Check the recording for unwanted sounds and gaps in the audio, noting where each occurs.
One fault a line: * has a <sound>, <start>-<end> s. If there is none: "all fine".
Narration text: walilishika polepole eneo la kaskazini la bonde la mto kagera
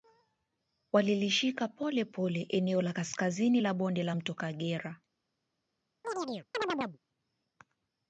* has a chirp, 6.0-7.0 s